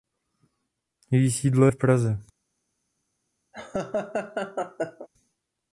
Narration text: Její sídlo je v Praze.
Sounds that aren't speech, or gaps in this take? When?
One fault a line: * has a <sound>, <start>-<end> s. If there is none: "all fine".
* has a laugh, 3.5-5.1 s